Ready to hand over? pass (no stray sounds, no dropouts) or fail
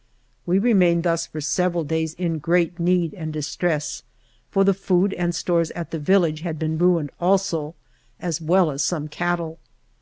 pass